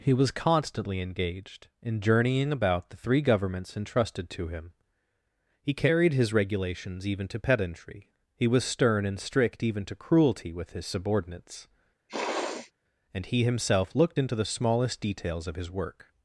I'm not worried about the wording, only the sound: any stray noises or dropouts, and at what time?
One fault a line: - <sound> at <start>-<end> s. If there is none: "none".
- sniff at 12.1-12.7 s